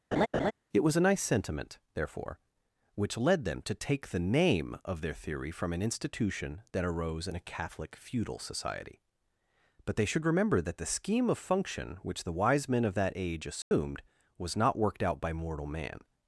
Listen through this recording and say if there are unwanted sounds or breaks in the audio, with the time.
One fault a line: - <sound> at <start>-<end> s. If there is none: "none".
- laugh at 0.1-0.5 s
- dropout at 13.6-13.7 s